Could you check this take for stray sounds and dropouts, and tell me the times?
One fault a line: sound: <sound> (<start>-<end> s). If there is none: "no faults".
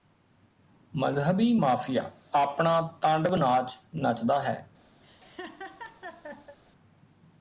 sound: laugh (5.0-6.6 s)